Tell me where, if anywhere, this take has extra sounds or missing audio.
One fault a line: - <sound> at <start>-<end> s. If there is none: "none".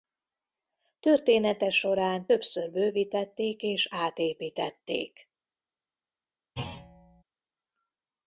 - thud at 6.6-7.2 s